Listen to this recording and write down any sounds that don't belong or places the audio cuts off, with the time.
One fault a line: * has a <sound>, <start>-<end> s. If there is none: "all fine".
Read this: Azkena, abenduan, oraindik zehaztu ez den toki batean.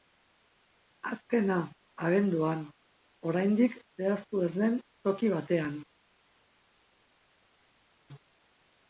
all fine